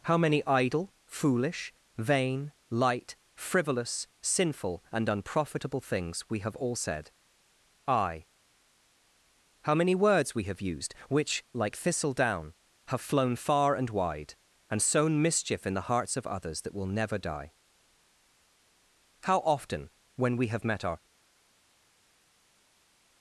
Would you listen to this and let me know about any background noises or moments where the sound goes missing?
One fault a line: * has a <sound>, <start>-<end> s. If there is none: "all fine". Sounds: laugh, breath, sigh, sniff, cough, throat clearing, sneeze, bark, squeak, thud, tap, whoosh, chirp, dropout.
all fine